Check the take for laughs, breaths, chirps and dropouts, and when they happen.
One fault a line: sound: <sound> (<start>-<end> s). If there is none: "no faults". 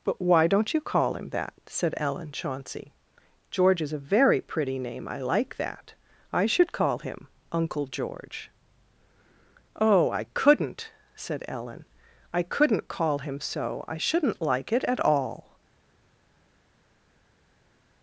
no faults